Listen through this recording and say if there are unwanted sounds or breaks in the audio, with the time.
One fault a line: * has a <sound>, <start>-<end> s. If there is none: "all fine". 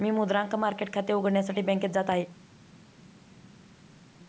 all fine